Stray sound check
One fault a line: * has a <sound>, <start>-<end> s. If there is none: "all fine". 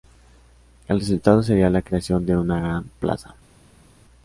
all fine